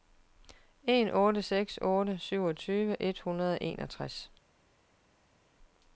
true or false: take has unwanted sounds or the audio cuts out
false